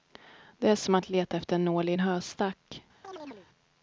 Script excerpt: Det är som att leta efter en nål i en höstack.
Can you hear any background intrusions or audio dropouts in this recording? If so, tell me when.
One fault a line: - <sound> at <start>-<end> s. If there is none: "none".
- chirp at 3.0-3.5 s